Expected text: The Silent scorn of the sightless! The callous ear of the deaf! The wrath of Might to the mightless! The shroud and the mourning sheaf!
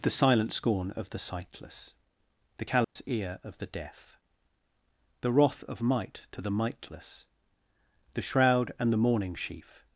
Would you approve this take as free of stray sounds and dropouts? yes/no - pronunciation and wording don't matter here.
no